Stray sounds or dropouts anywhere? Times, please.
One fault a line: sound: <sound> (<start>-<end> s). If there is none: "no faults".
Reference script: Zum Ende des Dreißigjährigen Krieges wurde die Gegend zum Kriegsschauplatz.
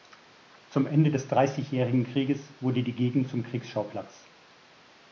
no faults